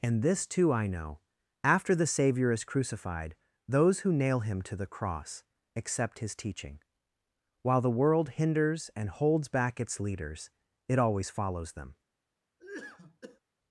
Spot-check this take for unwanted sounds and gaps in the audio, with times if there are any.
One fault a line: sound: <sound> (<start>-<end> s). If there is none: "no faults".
sound: cough (12.6-13.4 s)